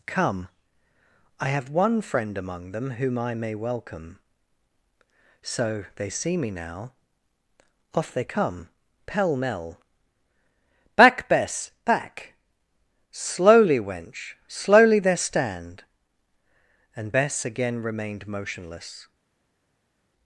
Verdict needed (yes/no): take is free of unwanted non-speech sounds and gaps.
yes